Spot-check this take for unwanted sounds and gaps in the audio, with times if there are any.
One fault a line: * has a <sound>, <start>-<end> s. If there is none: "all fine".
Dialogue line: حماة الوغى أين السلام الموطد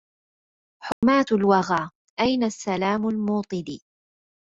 * has a dropout, 0.9-1.0 s